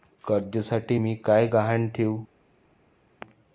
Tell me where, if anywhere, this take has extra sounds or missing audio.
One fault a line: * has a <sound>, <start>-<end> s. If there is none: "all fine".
all fine